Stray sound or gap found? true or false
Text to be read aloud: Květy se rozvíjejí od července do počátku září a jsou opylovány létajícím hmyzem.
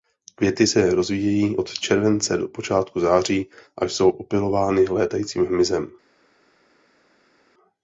false